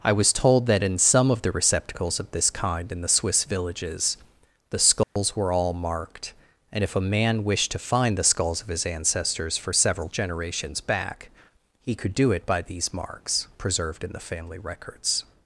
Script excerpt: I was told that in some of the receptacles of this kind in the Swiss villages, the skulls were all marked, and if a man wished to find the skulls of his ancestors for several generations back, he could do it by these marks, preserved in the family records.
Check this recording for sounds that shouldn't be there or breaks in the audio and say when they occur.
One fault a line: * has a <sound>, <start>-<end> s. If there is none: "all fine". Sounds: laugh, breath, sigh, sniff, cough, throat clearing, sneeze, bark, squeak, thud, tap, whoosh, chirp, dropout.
* has a dropout, 5.0-5.2 s